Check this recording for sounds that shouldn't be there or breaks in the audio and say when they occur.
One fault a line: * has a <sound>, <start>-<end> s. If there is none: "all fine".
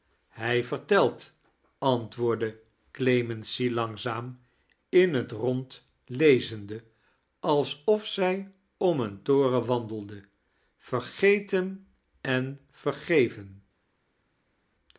all fine